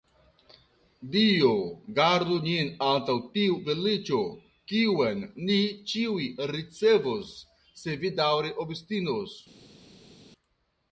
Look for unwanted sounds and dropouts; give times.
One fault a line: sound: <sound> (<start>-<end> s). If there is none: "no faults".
no faults